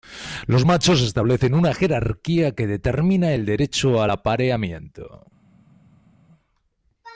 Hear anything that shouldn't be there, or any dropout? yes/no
no